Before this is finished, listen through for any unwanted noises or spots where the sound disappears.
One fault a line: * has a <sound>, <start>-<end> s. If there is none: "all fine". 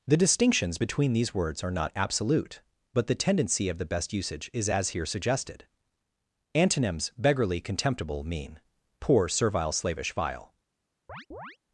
* has a chirp, 11.1-11.6 s